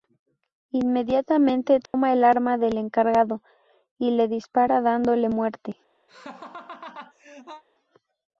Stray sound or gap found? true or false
true